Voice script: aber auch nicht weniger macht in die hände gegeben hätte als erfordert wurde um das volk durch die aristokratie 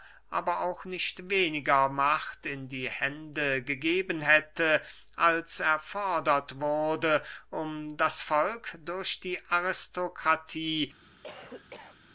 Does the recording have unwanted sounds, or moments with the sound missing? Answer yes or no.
yes